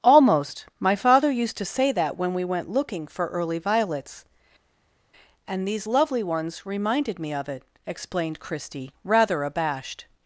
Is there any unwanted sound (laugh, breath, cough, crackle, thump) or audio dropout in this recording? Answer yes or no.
no